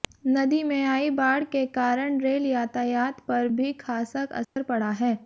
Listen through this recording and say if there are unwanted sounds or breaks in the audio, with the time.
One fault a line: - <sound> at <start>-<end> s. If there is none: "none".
- dropout at 4.4-4.6 s